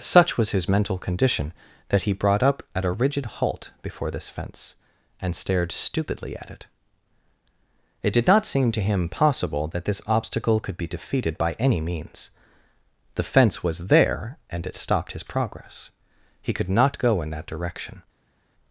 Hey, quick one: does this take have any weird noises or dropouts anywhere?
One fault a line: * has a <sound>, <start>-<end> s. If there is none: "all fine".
all fine